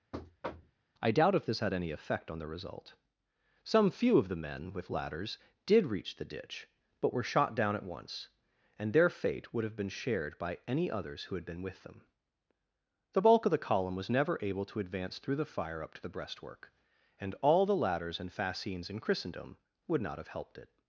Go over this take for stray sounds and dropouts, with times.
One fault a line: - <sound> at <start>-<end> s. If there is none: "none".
- thud at 0.1-0.8 s